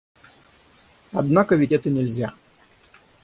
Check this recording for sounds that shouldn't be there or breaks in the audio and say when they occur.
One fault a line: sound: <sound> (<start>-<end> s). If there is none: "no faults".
no faults